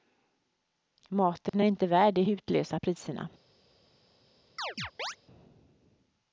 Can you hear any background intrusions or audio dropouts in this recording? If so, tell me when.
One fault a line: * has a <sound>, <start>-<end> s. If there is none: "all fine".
* has a dropout, 1.5-1.5 s
* has a chirp, 4.6-5.2 s